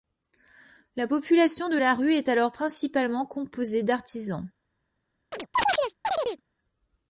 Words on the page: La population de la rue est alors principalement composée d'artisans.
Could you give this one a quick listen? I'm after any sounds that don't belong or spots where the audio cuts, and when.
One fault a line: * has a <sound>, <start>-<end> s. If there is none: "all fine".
* has a chirp, 5.3-6.4 s